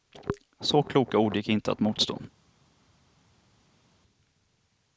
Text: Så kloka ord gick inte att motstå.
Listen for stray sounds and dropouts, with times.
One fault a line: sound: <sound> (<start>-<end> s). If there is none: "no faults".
no faults